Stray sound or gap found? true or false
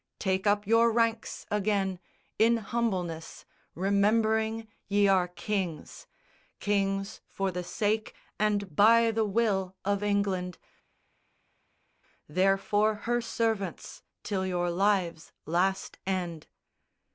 false